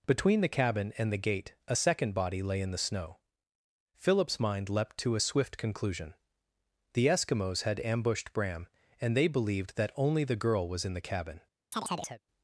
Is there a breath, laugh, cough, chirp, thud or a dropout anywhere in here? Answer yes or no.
yes